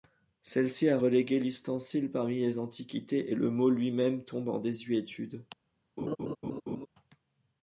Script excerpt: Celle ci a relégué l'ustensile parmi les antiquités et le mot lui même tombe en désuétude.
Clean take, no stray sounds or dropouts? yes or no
no